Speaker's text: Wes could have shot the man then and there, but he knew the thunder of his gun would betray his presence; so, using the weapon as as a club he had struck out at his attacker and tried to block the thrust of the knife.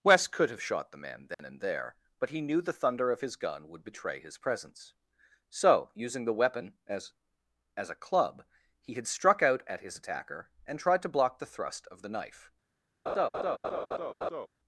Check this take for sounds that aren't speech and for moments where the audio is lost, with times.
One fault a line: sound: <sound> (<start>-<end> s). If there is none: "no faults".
sound: dropout (1.3-1.4 s)
sound: laugh (13.1-14.5 s)